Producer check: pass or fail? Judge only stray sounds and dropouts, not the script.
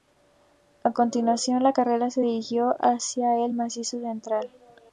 pass